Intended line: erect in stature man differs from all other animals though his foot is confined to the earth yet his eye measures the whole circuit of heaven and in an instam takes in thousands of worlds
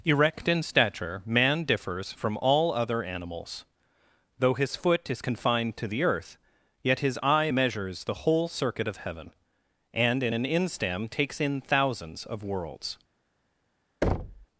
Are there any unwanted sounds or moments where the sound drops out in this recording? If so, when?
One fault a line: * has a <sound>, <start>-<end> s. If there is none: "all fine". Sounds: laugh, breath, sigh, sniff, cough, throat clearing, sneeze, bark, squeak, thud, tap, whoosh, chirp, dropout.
* has a thud, 14.0-14.5 s